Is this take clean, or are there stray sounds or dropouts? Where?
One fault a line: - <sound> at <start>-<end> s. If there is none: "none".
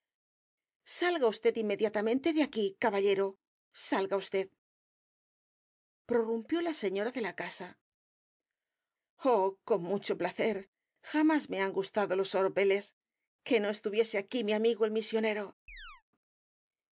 - chirp at 15.7-16.0 s